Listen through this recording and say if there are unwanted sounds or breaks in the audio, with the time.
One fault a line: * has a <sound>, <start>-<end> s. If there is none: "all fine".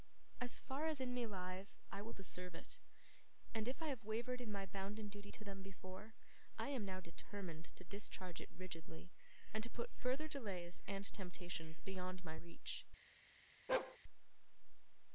* has a bark, 13.7-14.0 s